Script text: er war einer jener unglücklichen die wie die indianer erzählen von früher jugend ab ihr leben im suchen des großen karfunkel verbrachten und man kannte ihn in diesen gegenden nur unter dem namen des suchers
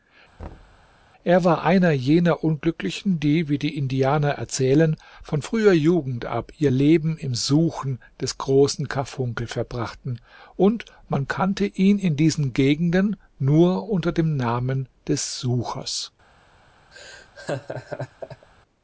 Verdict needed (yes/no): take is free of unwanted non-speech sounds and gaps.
no